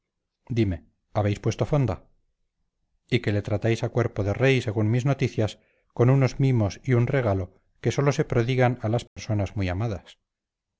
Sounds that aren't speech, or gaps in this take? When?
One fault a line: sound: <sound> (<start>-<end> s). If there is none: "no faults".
sound: dropout (9.1-9.2 s)